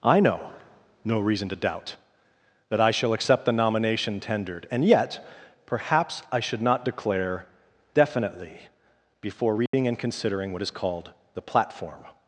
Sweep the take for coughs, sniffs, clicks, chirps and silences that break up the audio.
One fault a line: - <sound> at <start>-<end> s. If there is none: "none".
- dropout at 9.7-9.7 s